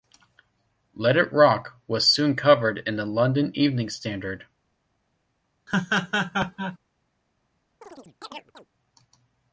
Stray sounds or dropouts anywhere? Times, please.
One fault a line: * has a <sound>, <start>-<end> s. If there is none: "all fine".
* has a laugh, 5.7-6.8 s
* has a chirp, 7.8-8.7 s